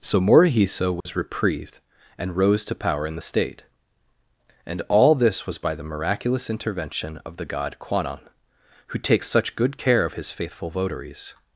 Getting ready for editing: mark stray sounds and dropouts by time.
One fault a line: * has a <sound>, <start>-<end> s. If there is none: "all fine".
* has a dropout, 1.0-1.1 s